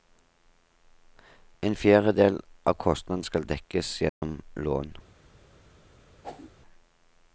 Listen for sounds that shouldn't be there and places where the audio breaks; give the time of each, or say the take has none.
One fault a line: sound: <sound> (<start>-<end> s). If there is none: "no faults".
sound: dropout (4.1-4.2 s)
sound: whoosh (6.2-6.5 s)